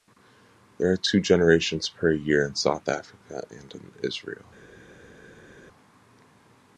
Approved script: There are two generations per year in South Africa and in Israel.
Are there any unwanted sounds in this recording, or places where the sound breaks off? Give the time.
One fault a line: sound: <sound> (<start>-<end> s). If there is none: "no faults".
no faults